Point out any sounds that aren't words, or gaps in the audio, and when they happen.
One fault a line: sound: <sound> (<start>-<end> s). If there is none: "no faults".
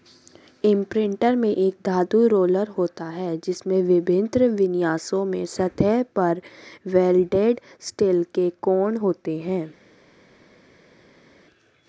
no faults